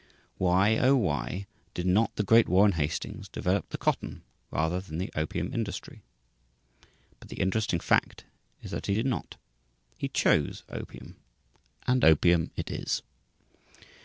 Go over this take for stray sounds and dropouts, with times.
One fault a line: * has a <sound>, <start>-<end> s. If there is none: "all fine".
all fine